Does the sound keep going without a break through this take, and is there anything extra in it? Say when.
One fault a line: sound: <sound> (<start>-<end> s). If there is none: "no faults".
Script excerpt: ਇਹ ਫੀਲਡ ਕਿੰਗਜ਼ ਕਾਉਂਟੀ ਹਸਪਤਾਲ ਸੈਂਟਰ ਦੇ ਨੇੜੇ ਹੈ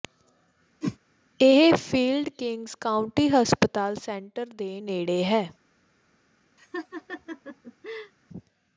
sound: whoosh (0.8-1.0 s)
sound: laugh (6.6-8.1 s)